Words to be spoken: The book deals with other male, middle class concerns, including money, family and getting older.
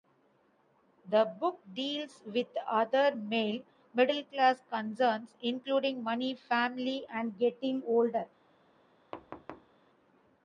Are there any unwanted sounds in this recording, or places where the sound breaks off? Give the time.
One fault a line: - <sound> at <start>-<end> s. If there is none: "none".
- thud at 9.1-9.8 s